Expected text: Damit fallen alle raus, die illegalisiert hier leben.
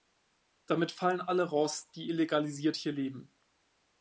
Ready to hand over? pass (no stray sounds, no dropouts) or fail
pass